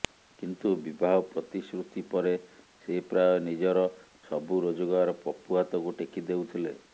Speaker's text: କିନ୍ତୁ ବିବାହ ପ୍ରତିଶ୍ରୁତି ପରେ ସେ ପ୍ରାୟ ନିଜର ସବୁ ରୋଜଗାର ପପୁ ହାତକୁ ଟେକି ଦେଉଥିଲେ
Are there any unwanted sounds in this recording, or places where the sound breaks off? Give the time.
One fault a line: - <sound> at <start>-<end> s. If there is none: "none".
none